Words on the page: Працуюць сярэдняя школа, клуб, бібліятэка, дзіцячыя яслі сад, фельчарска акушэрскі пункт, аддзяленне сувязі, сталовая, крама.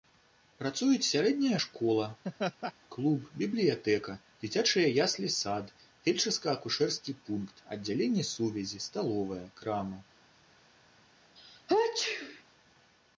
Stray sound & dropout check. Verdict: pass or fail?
fail